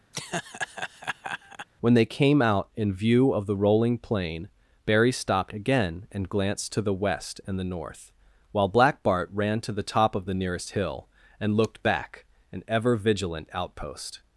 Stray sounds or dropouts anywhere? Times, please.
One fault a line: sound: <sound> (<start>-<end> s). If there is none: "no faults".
sound: laugh (0.1-1.7 s)